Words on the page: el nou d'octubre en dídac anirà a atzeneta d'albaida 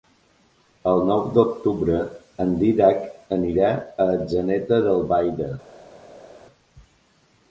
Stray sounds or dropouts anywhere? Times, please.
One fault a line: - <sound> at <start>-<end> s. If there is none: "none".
none